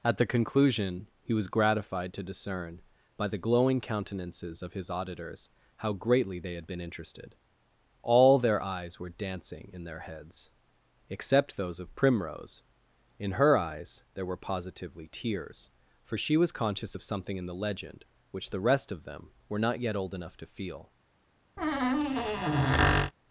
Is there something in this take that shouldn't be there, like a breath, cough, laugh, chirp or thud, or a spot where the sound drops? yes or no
yes